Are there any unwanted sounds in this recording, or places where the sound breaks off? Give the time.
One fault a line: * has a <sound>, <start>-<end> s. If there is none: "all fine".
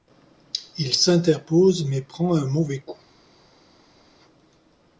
all fine